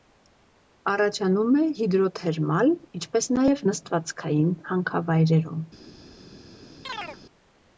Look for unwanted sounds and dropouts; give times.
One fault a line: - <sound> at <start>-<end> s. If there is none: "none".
- chirp at 6.8-7.2 s